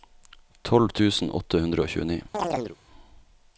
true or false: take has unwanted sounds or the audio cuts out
true